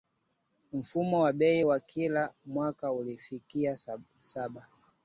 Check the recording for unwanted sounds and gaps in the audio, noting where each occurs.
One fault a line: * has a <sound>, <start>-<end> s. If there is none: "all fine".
all fine